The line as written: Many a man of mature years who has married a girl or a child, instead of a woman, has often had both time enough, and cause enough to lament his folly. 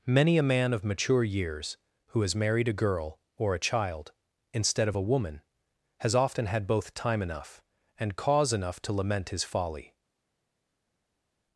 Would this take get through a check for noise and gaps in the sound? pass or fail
pass